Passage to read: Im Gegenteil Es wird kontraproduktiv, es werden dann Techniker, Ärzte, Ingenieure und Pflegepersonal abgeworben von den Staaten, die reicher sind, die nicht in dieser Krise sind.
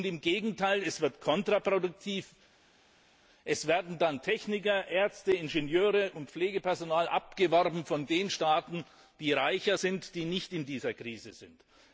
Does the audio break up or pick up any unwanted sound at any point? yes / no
no